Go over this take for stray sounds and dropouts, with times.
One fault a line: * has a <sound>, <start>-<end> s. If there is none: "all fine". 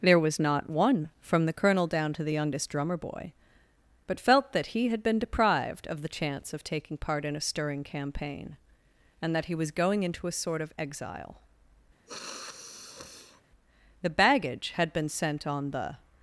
* has a sniff, 12.1-13.4 s